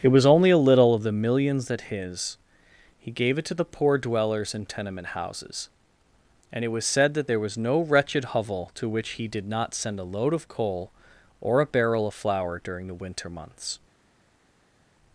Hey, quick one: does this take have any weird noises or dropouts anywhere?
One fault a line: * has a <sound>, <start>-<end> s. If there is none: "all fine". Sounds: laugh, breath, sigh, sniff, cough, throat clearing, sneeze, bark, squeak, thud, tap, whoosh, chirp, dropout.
all fine